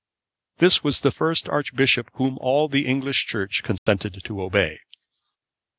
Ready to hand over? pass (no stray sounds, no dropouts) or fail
fail